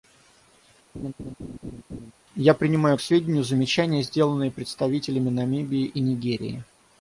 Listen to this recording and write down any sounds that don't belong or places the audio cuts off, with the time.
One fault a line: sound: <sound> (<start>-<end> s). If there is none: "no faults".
sound: laugh (0.9-2.1 s)